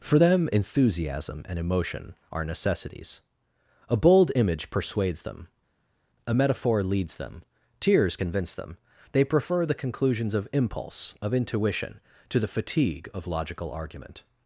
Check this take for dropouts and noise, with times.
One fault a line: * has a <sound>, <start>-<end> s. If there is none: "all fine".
all fine